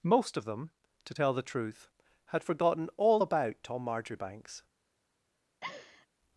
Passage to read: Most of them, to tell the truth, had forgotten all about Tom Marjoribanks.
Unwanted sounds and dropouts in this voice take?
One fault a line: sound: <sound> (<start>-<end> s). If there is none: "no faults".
sound: laugh (5.6-6.1 s)